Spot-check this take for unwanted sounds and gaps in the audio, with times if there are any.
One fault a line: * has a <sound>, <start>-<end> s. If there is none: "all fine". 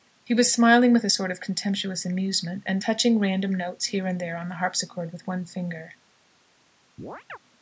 * has a chirp, 7.0-7.4 s